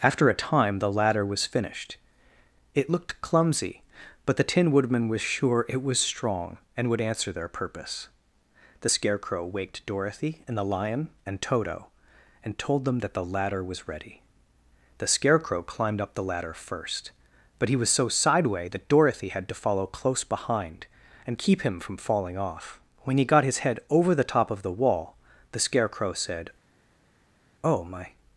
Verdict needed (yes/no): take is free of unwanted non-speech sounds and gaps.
yes